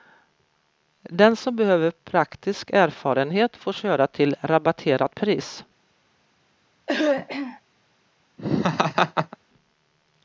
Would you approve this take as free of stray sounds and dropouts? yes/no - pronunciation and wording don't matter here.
no